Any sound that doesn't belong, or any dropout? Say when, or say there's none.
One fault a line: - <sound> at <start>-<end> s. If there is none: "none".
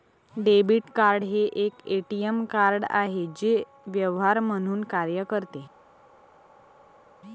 none